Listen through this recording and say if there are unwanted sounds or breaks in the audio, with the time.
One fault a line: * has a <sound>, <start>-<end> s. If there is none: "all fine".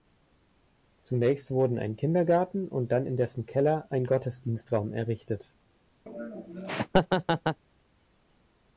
* has a laugh, 6.1-7.6 s